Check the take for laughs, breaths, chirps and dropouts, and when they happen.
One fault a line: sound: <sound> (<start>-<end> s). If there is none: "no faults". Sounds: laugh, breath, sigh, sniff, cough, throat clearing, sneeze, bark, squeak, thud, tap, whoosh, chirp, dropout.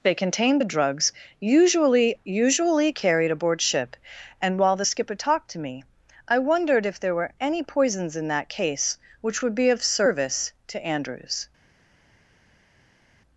no faults